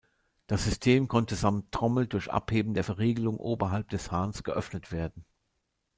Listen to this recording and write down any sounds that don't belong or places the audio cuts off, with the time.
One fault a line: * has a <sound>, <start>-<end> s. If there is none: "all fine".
all fine